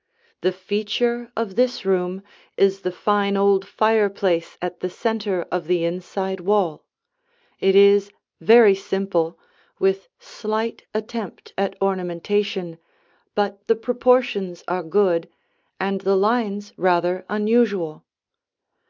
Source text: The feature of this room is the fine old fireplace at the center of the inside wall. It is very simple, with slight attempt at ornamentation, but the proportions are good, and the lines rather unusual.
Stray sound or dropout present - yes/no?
no